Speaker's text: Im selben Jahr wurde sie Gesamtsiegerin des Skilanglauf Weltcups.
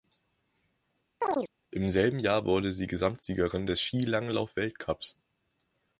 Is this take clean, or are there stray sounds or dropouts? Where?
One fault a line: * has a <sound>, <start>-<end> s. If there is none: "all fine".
* has a chirp, 1.2-1.5 s